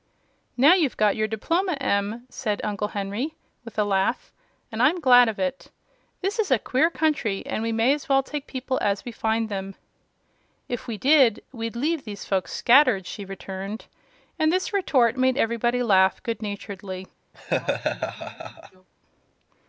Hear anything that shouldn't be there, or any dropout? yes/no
yes